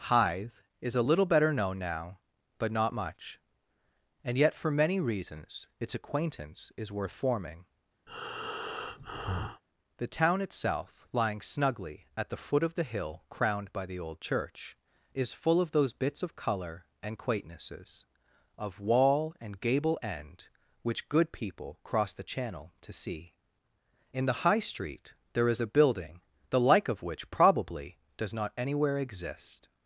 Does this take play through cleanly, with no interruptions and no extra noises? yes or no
no